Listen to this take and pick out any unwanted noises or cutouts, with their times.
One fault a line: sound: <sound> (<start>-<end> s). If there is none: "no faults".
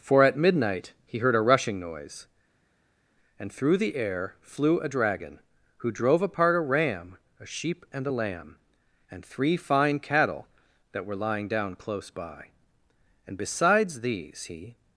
no faults